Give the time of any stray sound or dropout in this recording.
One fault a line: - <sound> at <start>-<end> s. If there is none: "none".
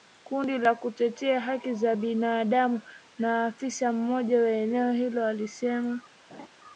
- laugh at 6.3-6.5 s